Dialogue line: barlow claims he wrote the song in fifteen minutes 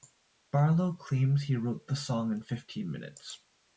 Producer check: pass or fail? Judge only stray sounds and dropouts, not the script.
pass